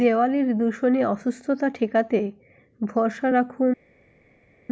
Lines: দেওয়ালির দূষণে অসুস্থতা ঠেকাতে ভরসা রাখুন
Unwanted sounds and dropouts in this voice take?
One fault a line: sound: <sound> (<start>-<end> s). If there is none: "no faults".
no faults